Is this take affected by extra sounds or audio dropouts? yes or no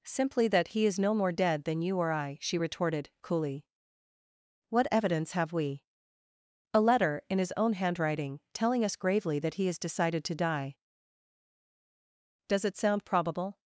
no